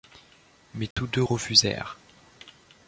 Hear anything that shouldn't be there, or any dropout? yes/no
yes